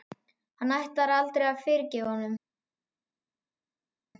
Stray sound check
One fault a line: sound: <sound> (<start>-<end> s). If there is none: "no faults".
no faults